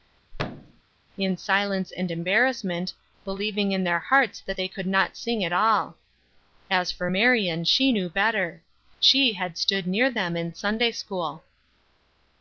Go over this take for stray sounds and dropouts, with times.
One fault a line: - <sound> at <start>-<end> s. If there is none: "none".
- thud at 0.3-0.8 s